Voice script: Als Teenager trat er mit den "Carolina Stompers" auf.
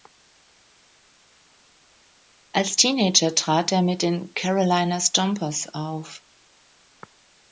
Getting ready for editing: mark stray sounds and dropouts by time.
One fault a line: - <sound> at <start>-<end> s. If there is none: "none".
none